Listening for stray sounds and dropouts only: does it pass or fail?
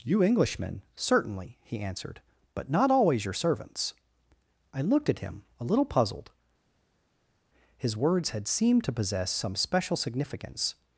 pass